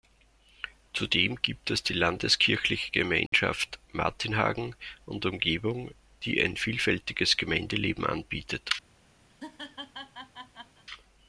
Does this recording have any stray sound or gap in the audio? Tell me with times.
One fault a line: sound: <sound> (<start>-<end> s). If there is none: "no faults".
sound: dropout (3.3-3.3 s)
sound: laugh (9.3-10.8 s)